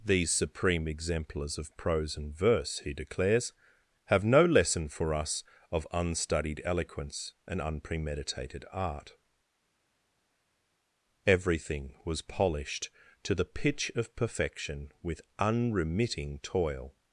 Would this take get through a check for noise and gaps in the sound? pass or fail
pass